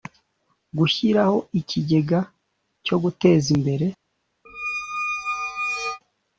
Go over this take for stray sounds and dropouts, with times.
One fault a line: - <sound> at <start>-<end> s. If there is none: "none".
- squeak at 4.4-6.0 s